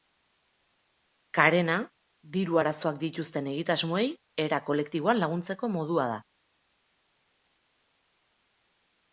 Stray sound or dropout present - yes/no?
no